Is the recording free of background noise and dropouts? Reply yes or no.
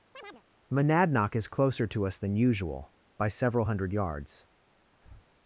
no